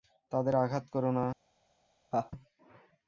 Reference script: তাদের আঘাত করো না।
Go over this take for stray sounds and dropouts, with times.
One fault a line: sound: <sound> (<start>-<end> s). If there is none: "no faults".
sound: laugh (2.1-2.3 s)